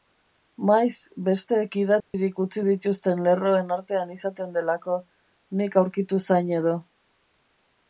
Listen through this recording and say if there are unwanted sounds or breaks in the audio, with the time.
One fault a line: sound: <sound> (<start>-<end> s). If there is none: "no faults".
sound: dropout (2.0-2.1 s)